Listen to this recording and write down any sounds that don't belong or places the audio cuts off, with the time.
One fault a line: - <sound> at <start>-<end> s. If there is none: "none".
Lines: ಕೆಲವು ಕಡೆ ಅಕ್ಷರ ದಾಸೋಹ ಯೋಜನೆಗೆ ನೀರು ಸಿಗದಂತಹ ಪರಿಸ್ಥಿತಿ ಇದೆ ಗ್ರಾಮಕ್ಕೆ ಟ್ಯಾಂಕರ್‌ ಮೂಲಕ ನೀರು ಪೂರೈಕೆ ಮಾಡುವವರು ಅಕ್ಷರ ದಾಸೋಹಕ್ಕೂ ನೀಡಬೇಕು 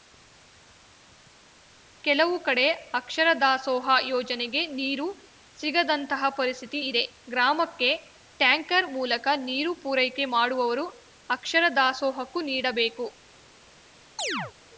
- chirp at 14.2-14.5 s